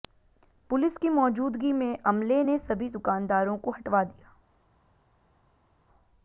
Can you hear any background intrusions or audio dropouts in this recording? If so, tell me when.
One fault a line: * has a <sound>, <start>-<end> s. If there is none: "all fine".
all fine